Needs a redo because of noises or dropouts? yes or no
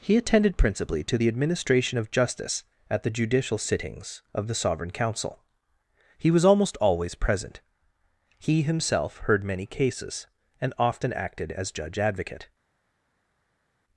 no